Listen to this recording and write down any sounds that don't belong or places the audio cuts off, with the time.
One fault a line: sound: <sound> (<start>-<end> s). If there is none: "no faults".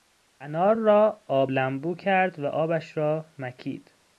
no faults